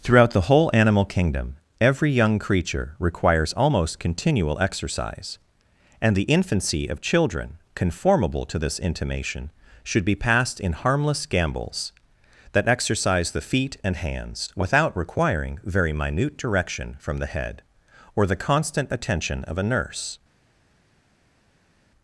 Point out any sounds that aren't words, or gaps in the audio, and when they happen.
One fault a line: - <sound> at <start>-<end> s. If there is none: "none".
none